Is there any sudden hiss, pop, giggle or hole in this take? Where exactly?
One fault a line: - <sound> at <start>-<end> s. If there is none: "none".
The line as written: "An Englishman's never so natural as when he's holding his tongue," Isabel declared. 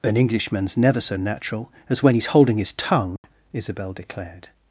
- dropout at 3.2-3.2 s